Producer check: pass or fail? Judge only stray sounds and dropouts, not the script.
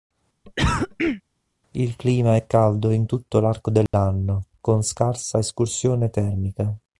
fail